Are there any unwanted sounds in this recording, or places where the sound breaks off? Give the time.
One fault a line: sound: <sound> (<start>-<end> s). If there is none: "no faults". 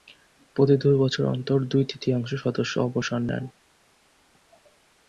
no faults